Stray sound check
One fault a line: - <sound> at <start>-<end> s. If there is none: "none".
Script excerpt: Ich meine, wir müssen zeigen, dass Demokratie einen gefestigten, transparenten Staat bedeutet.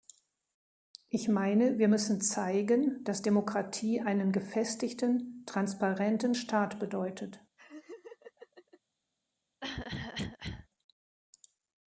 - laugh at 7.6-8.8 s
- cough at 9.6-10.7 s